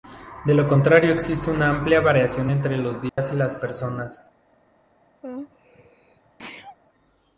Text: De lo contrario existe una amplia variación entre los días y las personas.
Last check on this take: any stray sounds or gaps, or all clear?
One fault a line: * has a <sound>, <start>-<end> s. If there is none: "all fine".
* has a dropout, 3.1-3.2 s
* has a sneeze, 5.2-6.8 s